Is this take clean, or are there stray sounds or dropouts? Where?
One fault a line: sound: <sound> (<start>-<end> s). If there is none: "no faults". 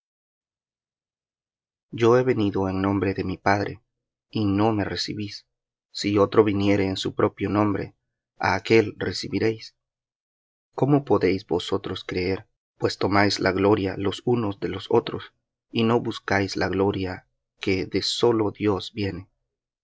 no faults